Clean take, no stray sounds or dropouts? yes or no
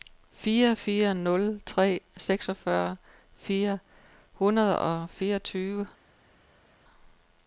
yes